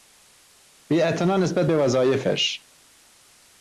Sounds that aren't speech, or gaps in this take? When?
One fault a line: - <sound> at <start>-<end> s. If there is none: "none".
none